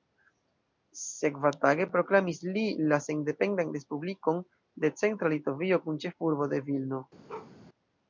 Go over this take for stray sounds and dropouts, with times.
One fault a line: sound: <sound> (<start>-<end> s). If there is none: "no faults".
sound: bark (7.3-7.5 s)